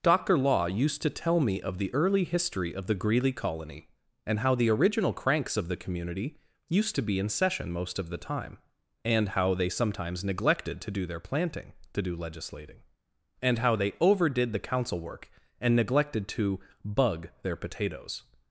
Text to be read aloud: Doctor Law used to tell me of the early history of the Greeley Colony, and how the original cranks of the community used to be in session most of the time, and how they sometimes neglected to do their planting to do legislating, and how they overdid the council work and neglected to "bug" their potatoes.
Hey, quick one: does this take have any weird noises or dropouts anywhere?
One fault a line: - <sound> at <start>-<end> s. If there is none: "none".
none